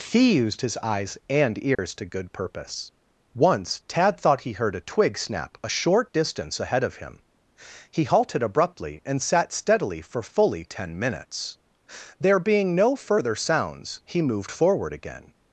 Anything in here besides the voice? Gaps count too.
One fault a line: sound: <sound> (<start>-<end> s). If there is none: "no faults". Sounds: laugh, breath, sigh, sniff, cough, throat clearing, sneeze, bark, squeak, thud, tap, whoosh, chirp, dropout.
sound: dropout (1.7-1.8 s)